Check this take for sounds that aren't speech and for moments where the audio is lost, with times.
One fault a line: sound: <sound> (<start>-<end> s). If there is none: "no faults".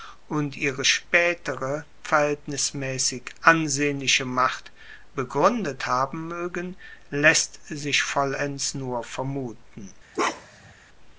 sound: bark (10.1-10.7 s)